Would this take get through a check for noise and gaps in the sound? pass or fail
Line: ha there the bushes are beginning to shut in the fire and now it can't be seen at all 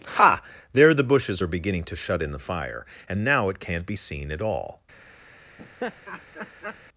fail